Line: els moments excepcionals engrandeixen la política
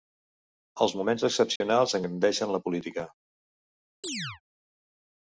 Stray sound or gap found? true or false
true